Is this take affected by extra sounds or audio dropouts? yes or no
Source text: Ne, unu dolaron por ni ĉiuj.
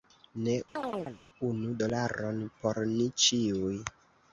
yes